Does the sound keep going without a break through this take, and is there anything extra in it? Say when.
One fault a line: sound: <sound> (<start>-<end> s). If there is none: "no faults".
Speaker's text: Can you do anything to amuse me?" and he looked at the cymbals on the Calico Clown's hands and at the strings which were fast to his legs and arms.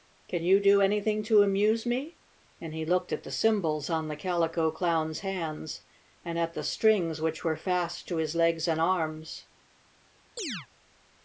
sound: chirp (10.4-10.7 s)